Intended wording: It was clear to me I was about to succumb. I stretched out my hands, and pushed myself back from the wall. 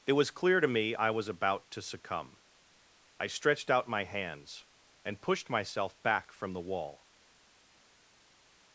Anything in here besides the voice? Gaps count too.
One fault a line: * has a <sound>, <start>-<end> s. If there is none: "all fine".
all fine